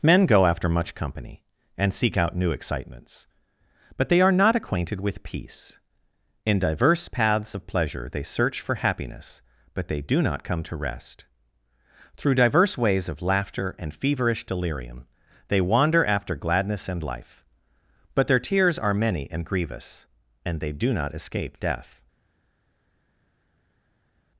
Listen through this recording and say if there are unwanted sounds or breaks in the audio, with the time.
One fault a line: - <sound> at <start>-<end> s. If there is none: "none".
none